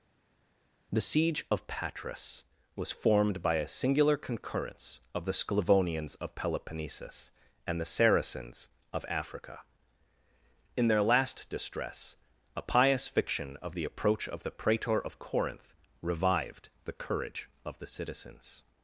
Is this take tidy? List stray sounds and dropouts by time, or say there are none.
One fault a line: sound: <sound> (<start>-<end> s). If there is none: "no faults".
no faults